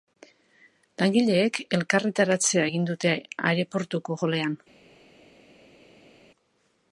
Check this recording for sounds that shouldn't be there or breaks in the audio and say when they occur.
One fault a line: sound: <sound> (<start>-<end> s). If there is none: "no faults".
no faults